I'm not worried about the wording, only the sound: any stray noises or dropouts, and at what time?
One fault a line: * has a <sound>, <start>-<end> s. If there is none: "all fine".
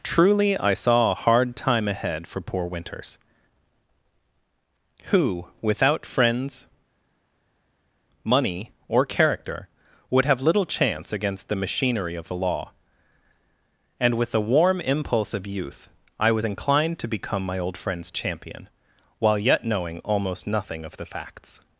all fine